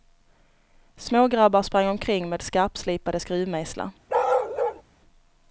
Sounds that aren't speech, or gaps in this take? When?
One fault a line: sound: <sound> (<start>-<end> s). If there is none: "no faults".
sound: bark (4.1-4.8 s)